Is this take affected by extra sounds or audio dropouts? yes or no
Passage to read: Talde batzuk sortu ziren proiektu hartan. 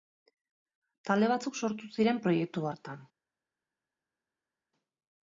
no